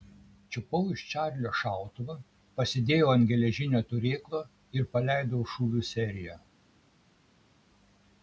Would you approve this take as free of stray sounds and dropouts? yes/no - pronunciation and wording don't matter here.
yes